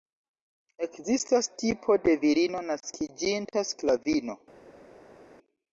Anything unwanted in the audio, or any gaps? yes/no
no